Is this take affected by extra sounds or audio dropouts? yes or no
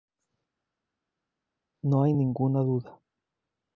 no